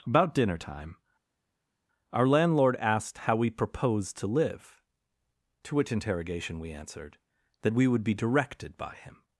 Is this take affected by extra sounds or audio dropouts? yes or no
no